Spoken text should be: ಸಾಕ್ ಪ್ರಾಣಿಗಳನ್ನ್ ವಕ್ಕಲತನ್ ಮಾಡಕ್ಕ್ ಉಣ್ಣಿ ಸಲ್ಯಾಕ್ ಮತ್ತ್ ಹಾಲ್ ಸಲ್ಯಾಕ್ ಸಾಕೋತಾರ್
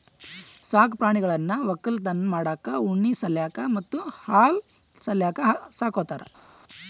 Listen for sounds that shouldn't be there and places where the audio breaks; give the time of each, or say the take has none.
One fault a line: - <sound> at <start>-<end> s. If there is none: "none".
none